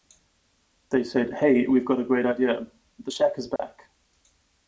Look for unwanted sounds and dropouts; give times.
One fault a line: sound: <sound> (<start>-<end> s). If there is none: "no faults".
sound: dropout (3.6-3.6 s)